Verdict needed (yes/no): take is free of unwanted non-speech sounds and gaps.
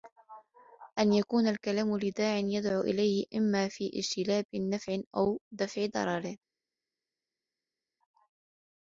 yes